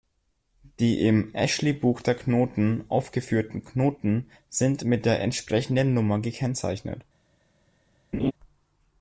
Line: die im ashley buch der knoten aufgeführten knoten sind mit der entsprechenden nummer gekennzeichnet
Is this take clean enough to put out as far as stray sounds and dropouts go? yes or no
no